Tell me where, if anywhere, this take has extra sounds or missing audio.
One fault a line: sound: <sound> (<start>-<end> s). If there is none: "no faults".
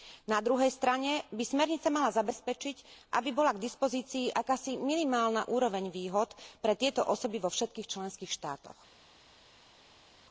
no faults